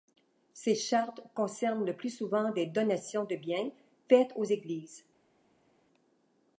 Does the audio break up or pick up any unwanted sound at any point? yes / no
no